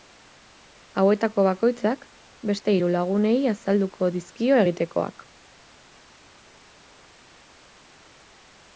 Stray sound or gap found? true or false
false